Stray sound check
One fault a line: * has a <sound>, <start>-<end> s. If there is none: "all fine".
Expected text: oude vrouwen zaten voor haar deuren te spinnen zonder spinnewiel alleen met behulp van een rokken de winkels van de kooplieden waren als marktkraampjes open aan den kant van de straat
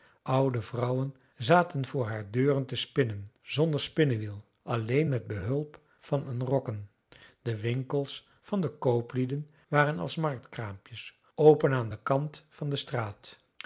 all fine